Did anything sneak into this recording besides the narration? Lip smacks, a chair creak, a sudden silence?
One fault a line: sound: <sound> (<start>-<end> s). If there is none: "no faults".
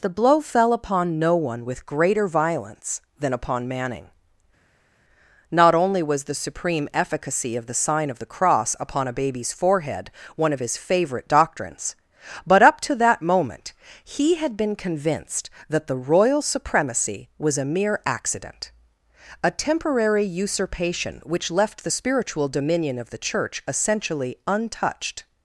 no faults